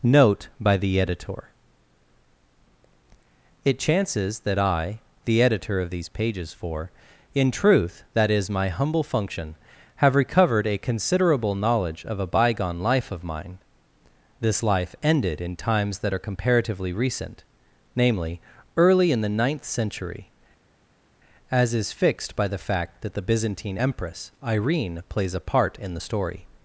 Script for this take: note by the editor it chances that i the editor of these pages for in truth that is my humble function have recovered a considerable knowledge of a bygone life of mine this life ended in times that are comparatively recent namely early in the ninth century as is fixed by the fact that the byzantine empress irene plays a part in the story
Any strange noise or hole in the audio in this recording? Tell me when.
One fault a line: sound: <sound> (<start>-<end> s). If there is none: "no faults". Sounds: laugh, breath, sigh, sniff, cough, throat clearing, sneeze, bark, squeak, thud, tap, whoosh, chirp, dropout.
no faults